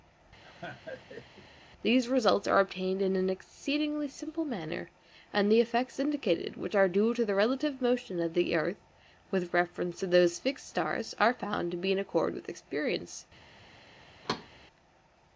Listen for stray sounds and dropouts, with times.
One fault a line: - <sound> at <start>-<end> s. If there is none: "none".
- laugh at 0.4-1.5 s
- thud at 14.2-14.5 s